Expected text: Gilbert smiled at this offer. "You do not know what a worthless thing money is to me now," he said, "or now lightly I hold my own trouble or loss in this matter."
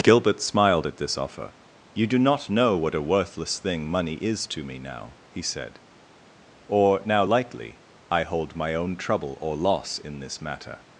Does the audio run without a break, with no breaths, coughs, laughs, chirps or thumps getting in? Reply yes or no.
yes